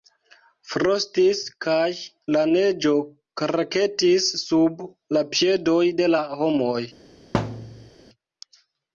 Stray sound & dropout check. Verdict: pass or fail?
fail